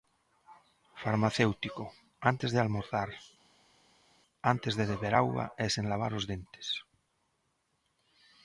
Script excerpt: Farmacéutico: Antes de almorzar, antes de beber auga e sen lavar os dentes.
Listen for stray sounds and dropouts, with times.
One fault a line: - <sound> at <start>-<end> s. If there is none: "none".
none